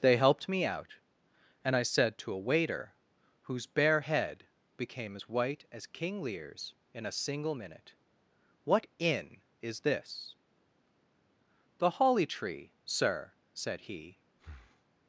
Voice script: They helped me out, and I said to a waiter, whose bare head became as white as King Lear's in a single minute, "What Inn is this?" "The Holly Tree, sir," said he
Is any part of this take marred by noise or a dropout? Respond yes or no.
yes